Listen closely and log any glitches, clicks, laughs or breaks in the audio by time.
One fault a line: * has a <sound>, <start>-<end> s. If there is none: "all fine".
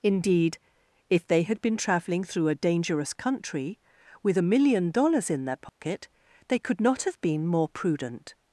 * has a dropout, 5.7-5.8 s